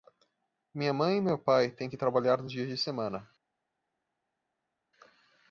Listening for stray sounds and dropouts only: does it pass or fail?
pass